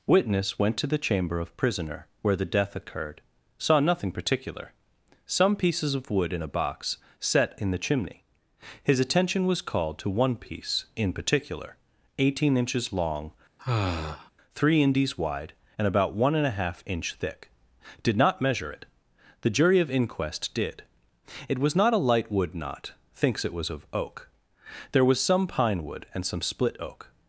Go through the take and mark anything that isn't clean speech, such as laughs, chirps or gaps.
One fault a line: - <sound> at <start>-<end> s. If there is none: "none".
- sigh at 13.6-14.3 s